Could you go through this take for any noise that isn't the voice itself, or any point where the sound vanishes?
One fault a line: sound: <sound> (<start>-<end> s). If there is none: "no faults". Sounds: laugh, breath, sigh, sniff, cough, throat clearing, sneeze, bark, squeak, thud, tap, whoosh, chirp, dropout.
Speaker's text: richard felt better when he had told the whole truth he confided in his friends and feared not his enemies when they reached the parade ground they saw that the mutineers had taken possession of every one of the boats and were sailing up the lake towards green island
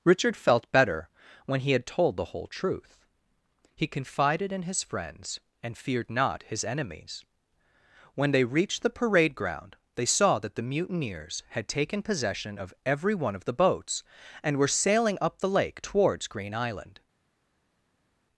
no faults